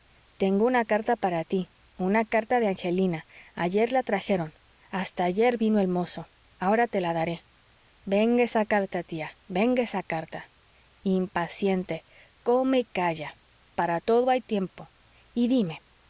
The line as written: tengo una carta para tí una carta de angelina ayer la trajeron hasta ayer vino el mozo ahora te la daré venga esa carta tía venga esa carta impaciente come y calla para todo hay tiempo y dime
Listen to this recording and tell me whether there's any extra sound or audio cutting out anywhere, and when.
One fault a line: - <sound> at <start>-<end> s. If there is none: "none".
none